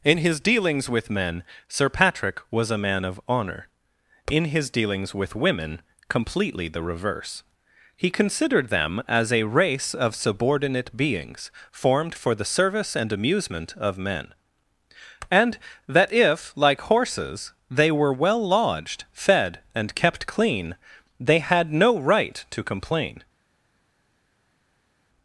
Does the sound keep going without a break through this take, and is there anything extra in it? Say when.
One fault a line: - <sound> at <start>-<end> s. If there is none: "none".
none